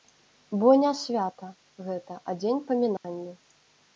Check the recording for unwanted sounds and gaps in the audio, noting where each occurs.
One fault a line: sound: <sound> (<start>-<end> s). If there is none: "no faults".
sound: dropout (3.0-3.0 s)